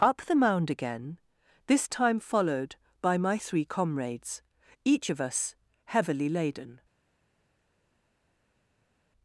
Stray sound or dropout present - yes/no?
no